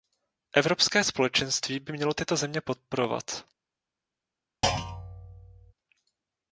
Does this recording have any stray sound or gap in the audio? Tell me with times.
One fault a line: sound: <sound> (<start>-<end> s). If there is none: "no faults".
sound: thud (4.6-5.7 s)